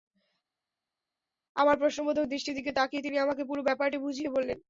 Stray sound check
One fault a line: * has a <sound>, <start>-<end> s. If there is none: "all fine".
all fine